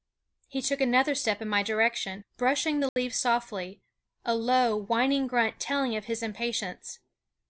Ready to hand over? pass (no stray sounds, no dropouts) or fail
fail